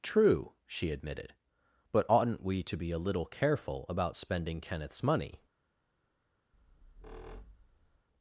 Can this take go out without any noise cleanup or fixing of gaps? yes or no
no